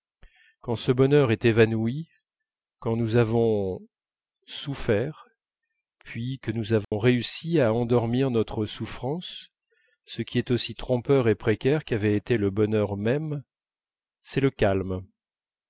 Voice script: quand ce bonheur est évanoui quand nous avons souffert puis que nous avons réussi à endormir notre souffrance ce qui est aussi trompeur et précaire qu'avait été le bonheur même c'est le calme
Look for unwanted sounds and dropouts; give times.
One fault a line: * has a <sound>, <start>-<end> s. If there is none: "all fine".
* has a dropout, 6.8-6.9 s